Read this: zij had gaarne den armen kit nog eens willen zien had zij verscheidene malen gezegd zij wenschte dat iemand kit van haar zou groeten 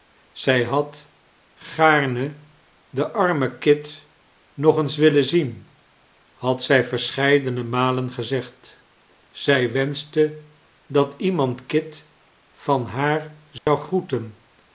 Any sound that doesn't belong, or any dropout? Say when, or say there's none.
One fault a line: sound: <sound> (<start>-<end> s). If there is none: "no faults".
sound: dropout (13.6-13.7 s)